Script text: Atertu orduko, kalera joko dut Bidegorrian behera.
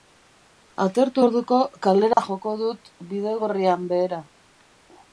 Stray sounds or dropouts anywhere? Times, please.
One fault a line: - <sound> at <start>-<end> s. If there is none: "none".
- dropout at 2.1-2.2 s